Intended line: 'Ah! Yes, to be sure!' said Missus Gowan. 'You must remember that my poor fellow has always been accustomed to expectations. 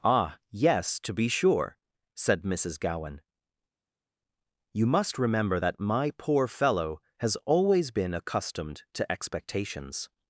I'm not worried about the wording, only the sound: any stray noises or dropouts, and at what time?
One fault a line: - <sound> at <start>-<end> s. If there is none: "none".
none